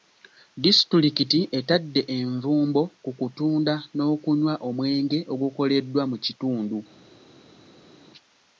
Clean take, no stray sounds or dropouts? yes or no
yes